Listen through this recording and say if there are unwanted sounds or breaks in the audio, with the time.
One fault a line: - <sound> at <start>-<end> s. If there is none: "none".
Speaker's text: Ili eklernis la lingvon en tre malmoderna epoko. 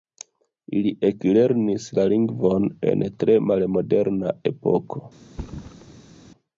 - thud at 5.3-6.2 s